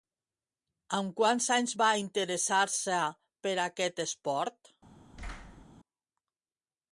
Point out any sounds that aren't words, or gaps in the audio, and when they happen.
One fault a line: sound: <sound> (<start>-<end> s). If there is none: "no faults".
sound: thud (5.1-5.7 s)